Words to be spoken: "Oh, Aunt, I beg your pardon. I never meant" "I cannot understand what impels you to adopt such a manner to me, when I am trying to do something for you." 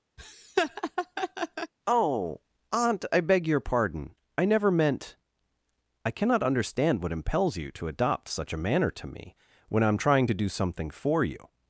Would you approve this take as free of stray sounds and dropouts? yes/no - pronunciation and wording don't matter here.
no